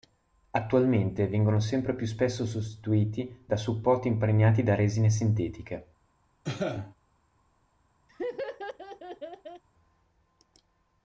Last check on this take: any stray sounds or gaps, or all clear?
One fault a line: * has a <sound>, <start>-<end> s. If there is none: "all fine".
* has a cough, 6.4-6.9 s
* has a laugh, 8.1-9.6 s